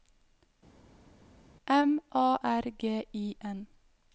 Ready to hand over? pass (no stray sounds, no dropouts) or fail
pass